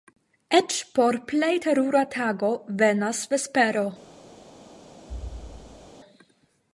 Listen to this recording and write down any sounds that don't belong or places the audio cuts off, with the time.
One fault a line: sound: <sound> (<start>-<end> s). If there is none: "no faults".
sound: thud (5.1-5.9 s)